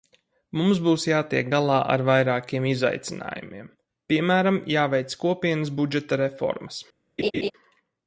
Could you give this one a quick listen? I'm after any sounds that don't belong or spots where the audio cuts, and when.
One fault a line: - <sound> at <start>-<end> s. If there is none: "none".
- laugh at 7.2-7.5 s